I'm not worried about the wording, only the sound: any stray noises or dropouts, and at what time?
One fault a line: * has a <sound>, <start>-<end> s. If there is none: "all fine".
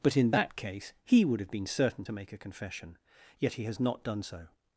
all fine